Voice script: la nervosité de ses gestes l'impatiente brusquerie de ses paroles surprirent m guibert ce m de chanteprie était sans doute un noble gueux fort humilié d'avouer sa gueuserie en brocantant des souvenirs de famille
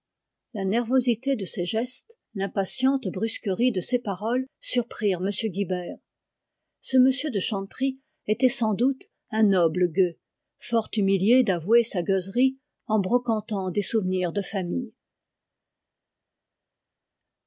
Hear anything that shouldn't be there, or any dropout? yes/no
no